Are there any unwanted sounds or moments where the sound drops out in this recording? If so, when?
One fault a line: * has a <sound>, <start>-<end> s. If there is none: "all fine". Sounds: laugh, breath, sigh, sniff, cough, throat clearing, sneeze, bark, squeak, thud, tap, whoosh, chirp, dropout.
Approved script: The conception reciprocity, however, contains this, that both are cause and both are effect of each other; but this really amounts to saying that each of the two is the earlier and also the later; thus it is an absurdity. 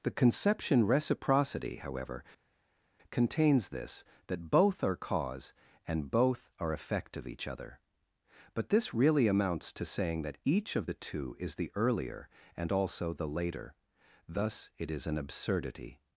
all fine